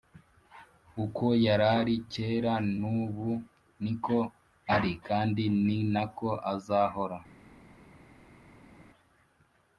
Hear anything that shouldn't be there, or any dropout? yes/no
no